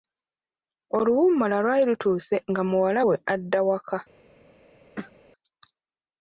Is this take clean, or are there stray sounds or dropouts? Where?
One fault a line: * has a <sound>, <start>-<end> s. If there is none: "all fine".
* has a throat clearing, 5.0-5.2 s